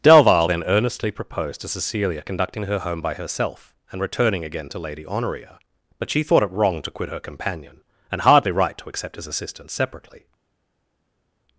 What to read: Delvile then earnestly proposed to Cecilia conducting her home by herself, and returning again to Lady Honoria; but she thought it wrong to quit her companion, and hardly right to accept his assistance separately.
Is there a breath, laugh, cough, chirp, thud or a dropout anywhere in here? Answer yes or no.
no